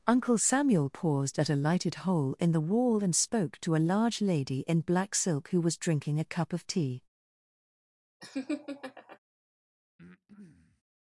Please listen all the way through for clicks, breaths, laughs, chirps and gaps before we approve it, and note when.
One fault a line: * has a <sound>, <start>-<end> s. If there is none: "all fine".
* has a laugh, 8.2-9.2 s
* has a breath, 10.0-10.8 s